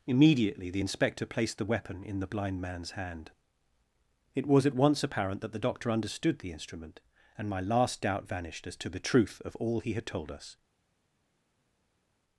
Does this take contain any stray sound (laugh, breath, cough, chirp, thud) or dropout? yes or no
no